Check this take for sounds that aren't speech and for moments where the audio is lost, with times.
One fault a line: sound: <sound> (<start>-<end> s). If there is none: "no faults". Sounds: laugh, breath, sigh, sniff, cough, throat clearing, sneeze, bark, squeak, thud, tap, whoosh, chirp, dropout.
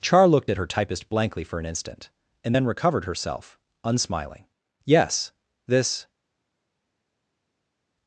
no faults